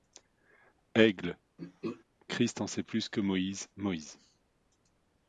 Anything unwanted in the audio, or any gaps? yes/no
yes